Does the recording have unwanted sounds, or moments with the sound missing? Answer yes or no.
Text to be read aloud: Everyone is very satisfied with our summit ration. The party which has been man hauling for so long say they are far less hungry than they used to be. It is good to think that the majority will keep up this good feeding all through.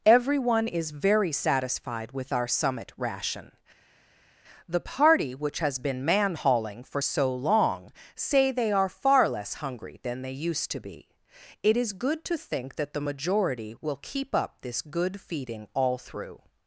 no